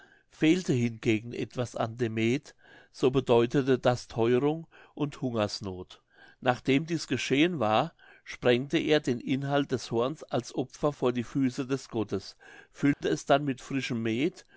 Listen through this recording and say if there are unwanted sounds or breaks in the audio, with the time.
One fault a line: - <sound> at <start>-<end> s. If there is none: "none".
- dropout at 12.9-13.0 s